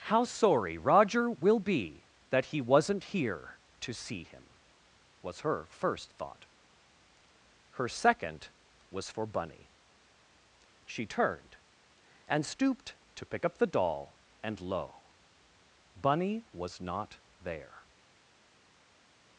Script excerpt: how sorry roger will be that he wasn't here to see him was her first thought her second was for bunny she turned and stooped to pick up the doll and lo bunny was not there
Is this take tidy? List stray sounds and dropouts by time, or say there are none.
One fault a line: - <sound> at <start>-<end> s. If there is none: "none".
none